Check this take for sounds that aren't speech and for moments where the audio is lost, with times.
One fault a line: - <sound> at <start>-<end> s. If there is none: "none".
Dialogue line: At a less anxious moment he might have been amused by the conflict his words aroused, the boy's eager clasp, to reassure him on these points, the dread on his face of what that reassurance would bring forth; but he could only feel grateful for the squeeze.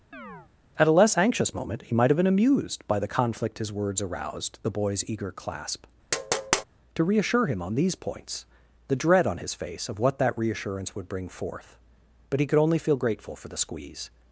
- chirp at 0.1-0.5 s
- tap at 6.1-6.6 s